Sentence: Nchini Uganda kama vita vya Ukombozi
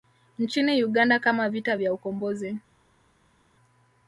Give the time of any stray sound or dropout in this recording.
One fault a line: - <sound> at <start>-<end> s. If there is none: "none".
none